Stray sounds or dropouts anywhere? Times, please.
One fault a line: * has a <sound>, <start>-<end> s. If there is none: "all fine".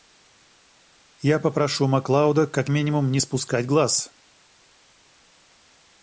all fine